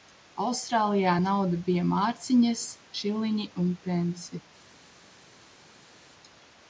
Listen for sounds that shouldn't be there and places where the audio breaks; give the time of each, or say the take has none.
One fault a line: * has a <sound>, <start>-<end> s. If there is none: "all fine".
all fine